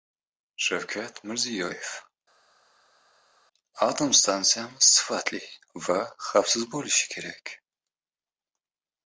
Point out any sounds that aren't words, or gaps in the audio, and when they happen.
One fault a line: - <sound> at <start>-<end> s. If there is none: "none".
none